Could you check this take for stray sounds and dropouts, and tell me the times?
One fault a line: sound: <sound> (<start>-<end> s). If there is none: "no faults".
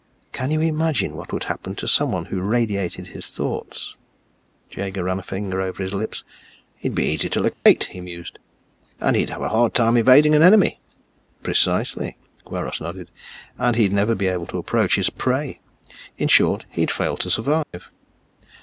sound: dropout (7.5-7.7 s)
sound: dropout (17.6-17.7 s)